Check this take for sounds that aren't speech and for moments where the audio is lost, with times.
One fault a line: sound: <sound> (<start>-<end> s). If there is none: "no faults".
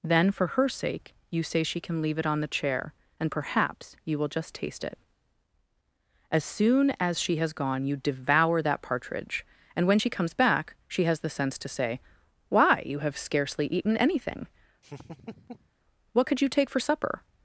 sound: laugh (14.8-15.7 s)